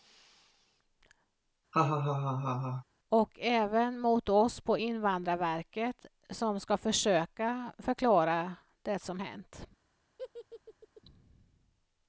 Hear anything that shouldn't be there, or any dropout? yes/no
yes